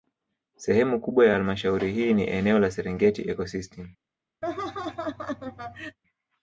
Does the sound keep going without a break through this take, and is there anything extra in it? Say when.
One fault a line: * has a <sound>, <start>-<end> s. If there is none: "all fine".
* has a laugh, 4.4-6.0 s